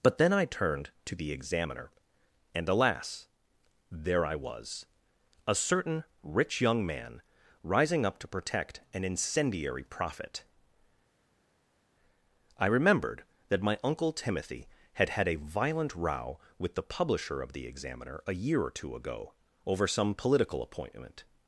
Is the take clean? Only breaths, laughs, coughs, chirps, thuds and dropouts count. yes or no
yes